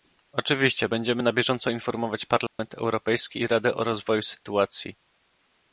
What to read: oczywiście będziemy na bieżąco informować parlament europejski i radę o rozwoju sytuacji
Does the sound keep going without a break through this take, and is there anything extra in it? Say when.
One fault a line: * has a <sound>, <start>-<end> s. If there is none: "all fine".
* has a dropout, 2.5-2.6 s